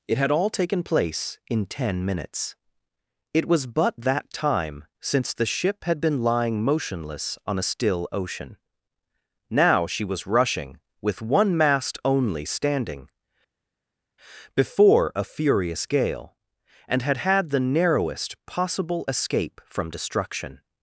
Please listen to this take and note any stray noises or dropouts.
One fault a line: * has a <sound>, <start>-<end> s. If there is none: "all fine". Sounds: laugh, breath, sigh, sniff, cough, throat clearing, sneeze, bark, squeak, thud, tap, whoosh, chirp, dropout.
all fine